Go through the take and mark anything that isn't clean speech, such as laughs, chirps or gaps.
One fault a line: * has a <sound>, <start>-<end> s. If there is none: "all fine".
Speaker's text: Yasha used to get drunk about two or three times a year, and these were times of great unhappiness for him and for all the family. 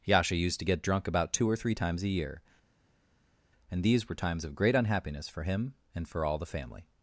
all fine